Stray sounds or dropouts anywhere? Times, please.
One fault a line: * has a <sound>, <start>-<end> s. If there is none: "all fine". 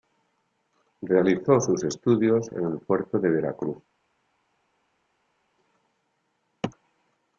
all fine